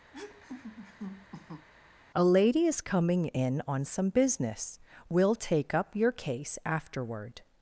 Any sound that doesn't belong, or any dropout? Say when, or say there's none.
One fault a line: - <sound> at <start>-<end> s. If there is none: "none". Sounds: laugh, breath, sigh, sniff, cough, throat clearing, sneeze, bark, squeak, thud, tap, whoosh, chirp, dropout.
- laugh at 0.1-1.7 s